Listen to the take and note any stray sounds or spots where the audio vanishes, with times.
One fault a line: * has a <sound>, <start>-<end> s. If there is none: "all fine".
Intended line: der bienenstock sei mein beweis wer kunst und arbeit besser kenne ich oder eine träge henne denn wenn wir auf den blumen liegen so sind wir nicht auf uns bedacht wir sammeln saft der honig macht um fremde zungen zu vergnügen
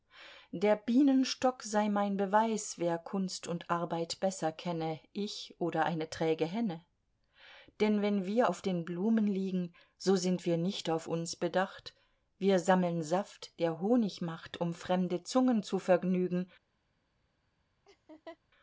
* has a laugh, 17.9-18.4 s